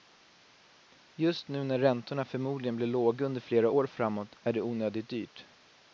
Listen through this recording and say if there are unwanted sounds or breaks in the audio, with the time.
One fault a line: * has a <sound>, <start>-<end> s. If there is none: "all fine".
all fine